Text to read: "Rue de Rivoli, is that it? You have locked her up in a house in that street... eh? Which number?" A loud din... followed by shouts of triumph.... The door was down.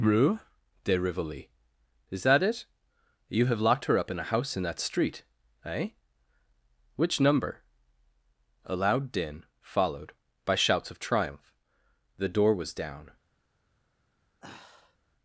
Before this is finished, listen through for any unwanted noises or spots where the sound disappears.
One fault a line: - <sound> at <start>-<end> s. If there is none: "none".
- sigh at 14.4-15.0 s